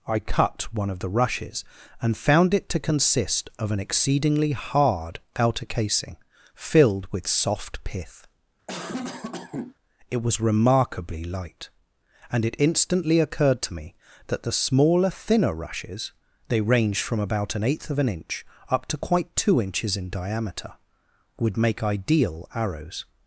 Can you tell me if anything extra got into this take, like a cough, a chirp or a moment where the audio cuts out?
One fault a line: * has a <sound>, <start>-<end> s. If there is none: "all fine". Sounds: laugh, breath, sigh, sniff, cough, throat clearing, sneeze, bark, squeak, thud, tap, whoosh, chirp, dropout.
* has a cough, 8.7-9.8 s